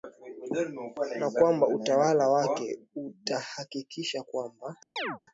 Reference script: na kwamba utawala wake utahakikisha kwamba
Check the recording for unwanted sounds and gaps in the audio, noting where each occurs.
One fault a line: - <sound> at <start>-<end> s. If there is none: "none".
- chirp at 5.0-5.2 s